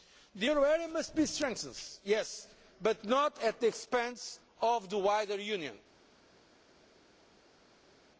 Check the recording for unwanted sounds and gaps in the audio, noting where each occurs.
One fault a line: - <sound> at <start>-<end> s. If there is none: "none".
none